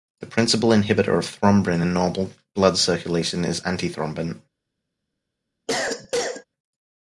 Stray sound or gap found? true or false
true